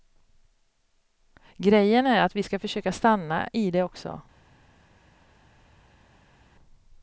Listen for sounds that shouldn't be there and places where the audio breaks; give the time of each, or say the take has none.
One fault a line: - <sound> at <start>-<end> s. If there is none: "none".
none